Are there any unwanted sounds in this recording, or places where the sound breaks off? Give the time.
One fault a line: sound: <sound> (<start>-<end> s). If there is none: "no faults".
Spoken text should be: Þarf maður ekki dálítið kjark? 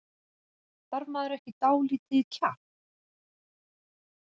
no faults